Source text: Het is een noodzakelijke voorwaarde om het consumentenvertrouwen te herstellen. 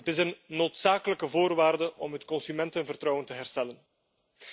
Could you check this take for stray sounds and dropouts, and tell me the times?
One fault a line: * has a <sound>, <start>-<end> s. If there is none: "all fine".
all fine